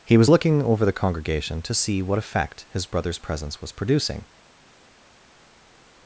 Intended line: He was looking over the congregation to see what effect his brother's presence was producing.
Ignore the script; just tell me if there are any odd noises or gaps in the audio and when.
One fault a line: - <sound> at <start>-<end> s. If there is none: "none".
none